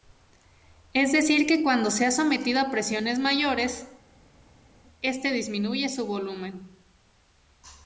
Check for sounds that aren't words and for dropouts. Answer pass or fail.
pass